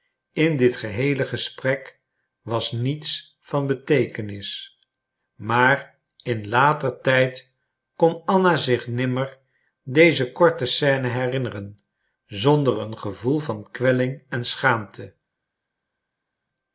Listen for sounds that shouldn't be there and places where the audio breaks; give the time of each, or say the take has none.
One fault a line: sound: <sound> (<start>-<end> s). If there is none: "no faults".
no faults